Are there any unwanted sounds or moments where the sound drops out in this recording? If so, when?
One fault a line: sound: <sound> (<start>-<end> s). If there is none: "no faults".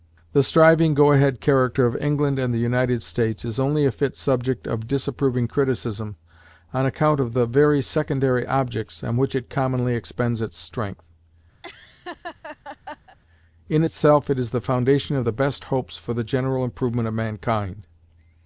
sound: laugh (11.6-13.2 s)